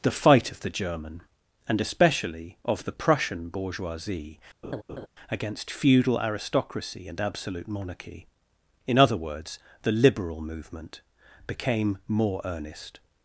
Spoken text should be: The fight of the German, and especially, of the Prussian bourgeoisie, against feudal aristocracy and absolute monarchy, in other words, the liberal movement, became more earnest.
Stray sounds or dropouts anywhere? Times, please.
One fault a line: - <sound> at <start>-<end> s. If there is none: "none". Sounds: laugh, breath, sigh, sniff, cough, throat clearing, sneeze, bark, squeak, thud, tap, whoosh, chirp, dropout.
- laugh at 4.6-5.1 s